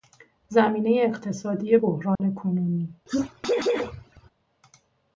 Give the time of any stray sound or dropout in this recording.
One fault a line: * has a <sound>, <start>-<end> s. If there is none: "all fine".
* has a dropout, 2.2-2.2 s
* has a sneeze, 3.1-4.3 s